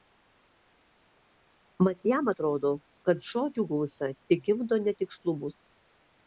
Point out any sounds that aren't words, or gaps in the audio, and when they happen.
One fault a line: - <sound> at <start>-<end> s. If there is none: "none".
none